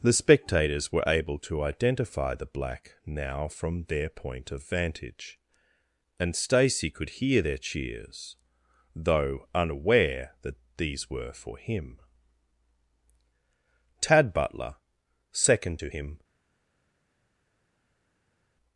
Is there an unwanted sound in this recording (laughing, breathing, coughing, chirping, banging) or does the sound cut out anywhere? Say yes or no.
no